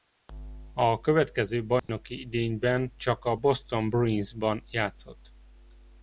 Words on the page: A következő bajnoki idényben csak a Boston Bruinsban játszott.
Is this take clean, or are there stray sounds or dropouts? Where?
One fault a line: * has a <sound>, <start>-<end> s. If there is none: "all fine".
* has a dropout, 1.8-1.9 s